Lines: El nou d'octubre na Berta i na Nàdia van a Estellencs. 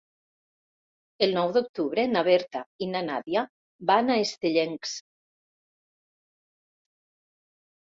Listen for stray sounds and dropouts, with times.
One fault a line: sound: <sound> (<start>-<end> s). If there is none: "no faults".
no faults